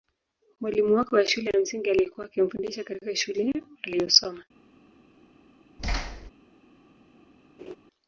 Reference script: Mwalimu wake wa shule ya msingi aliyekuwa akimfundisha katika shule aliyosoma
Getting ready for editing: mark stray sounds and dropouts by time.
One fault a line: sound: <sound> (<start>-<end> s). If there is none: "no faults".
sound: thud (5.8-6.3 s)
sound: laugh (7.6-7.8 s)